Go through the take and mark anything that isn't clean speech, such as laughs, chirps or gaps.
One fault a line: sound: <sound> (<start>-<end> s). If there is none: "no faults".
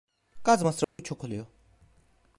sound: dropout (0.8-1.0 s)